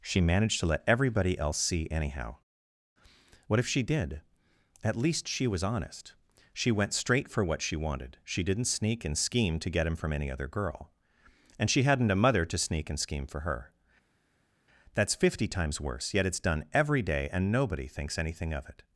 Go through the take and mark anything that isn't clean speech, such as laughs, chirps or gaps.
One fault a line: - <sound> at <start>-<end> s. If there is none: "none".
none